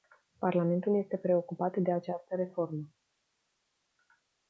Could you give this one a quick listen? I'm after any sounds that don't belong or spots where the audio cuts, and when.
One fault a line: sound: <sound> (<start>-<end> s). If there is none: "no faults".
no faults